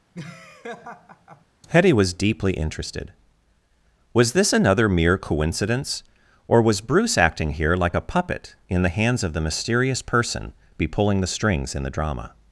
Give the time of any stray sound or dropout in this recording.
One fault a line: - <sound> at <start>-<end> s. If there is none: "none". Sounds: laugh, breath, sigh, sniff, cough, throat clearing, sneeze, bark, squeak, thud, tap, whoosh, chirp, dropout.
- laugh at 0.1-1.4 s